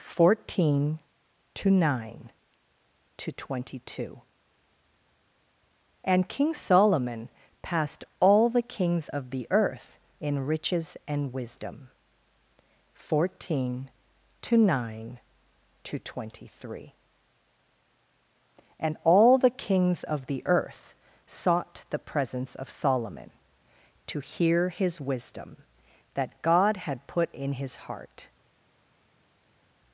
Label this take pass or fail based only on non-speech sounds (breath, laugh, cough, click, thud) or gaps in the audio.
pass